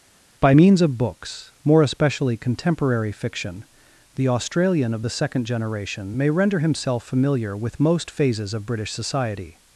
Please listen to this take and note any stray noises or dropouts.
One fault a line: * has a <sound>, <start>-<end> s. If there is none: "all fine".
all fine